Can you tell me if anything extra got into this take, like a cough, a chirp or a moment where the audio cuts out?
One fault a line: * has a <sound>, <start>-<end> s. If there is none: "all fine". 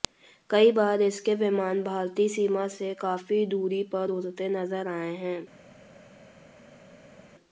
all fine